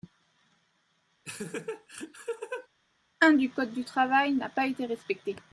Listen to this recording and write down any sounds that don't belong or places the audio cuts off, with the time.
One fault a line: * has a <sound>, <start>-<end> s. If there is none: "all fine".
* has a laugh, 1.2-2.7 s